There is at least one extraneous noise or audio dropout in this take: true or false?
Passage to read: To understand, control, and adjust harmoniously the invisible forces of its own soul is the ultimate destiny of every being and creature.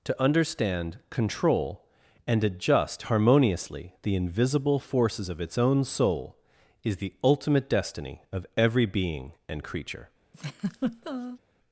true